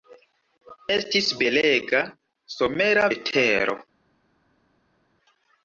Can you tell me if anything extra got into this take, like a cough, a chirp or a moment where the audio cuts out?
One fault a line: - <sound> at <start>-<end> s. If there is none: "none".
none